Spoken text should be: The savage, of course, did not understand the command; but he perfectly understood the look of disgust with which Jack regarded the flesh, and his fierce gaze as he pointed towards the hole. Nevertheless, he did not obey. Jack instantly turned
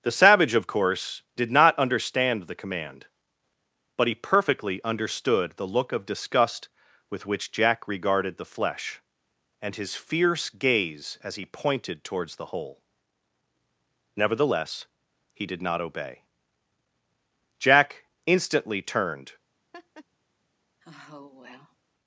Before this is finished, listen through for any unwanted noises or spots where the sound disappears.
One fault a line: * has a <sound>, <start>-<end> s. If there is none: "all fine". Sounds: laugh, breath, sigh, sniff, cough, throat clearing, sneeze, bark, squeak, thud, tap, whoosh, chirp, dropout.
* has a laugh, 19.7-20.1 s
* has a sigh, 20.8-21.8 s